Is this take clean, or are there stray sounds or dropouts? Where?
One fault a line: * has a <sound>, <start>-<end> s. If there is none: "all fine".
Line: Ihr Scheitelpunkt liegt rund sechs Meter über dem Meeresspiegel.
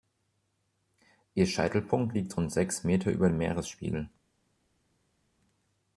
all fine